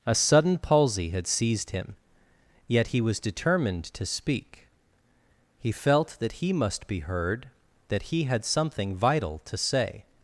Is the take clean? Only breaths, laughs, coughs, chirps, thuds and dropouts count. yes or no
yes